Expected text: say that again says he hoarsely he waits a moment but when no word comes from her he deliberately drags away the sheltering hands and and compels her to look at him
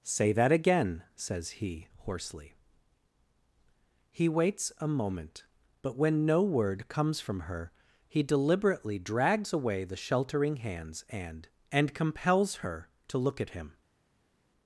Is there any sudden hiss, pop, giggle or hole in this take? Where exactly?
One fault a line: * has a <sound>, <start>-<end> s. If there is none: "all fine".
all fine